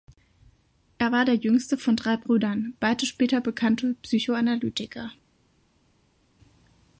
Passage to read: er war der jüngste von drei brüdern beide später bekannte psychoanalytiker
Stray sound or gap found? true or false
false